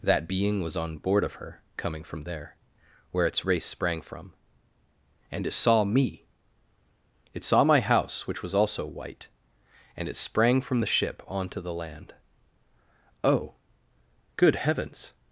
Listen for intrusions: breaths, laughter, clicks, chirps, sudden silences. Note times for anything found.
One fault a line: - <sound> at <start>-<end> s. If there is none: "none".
none